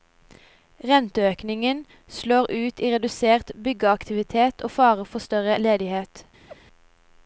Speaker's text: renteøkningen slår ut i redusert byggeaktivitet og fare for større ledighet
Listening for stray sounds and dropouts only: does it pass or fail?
fail